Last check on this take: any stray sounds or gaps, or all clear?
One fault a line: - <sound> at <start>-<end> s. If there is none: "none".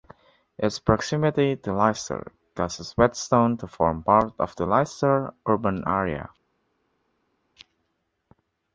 none